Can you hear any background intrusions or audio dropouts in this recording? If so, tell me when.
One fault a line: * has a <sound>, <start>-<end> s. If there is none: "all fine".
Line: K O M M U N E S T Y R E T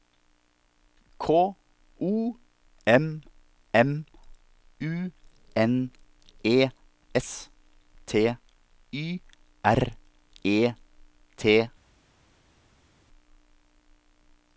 all fine